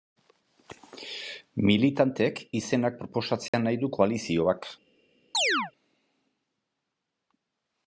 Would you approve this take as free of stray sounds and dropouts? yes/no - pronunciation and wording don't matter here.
no